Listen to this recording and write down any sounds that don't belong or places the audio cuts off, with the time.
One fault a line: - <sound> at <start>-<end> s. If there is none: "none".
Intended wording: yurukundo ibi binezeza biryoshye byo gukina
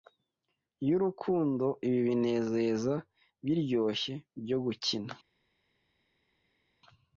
none